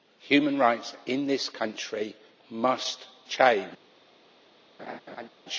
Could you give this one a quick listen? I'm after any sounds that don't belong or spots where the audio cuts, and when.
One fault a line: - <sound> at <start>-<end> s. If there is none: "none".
- laugh at 4.8-5.3 s